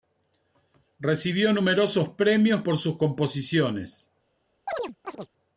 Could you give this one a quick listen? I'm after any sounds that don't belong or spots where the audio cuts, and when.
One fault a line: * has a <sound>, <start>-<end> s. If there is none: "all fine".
* has a chirp, 4.7-5.3 s